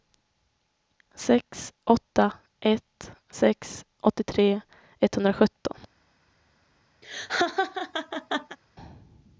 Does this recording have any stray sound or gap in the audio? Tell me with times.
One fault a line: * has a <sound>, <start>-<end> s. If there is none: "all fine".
* has a laugh, 7.0-8.6 s